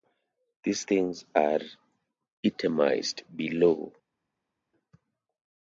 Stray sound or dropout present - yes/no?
no